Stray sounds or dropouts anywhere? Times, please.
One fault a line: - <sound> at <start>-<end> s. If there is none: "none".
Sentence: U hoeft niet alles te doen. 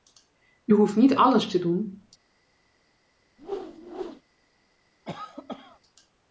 - whoosh at 3.4-4.2 s
- cough at 5.0-5.8 s